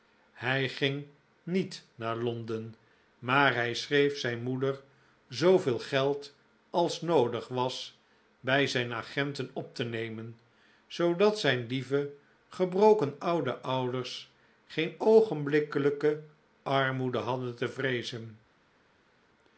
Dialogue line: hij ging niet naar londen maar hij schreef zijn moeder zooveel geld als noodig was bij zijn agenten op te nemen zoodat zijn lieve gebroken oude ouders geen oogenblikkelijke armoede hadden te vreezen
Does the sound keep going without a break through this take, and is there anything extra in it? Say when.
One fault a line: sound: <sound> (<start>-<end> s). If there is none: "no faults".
no faults